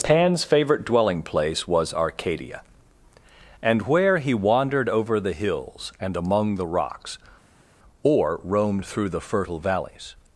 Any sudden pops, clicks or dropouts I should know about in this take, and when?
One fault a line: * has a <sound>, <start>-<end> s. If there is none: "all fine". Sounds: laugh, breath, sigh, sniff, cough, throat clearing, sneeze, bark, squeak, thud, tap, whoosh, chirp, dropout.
all fine